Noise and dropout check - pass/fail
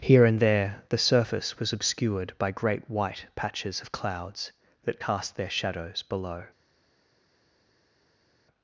pass